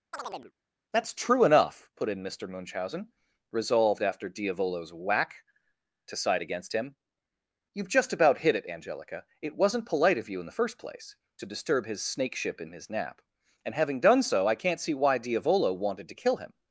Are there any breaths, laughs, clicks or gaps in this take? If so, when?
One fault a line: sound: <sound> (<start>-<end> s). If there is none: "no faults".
sound: chirp (0.1-0.5 s)